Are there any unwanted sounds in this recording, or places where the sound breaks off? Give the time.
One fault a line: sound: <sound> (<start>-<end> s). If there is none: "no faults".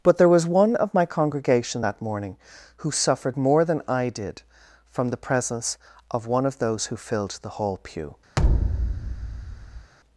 sound: thud (8.4-9.9 s)